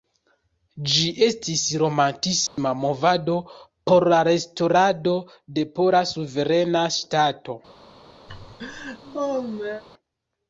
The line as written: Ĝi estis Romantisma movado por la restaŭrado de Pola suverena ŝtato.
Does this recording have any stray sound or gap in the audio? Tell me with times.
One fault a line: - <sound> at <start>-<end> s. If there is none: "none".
- dropout at 2.5-2.6 s
- laugh at 8.3-9.8 s